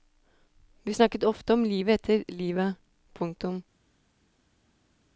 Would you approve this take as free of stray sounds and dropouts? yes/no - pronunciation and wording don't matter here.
yes